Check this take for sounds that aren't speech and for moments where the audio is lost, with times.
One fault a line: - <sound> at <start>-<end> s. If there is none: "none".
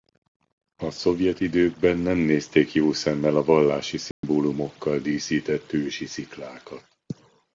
- dropout at 4.1-4.2 s